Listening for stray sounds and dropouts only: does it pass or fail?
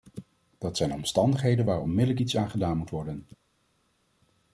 pass